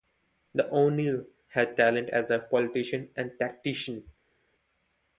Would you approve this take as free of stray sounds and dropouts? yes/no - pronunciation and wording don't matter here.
yes